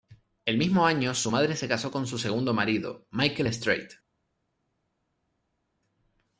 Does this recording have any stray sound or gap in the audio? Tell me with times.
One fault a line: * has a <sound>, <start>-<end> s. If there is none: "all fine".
all fine